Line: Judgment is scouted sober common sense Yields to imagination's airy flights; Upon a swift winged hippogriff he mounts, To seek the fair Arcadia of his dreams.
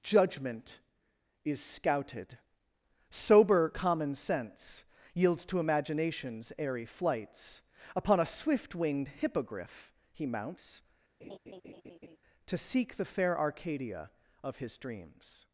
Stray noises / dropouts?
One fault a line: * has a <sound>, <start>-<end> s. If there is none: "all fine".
* has a laugh, 11.2-12.2 s